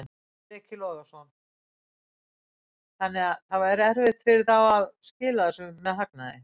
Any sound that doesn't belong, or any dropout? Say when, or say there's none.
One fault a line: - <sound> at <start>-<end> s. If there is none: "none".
none